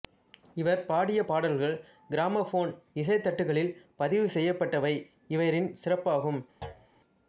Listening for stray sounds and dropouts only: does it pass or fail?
fail